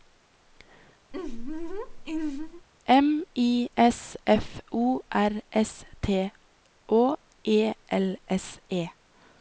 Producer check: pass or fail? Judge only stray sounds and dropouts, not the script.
fail